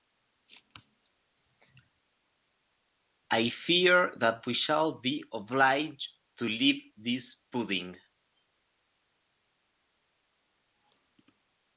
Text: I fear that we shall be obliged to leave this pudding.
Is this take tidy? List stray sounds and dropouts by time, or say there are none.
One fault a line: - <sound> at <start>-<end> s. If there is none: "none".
none